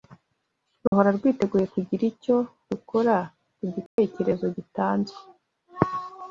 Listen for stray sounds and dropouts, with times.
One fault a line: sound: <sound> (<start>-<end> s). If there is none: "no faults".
sound: dropout (0.9-0.9 s)
sound: dropout (3.9-4.0 s)